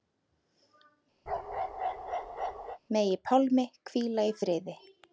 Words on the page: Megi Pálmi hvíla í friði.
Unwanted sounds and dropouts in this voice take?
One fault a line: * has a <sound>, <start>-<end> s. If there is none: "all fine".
* has a bark, 1.3-2.8 s